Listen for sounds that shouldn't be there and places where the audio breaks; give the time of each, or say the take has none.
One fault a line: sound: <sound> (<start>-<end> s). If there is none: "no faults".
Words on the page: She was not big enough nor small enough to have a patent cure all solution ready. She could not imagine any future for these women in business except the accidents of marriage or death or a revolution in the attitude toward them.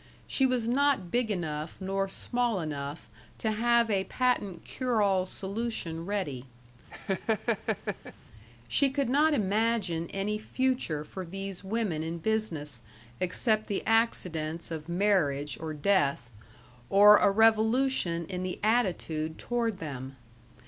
sound: laugh (6.9-8.1 s)